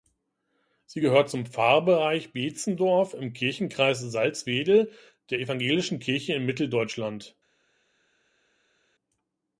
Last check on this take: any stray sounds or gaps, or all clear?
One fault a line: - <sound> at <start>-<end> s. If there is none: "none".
none